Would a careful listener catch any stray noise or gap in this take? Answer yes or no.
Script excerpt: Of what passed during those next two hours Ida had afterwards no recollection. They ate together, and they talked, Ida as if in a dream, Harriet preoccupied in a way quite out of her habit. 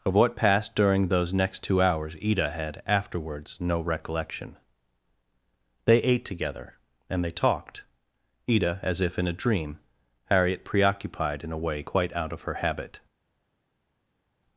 no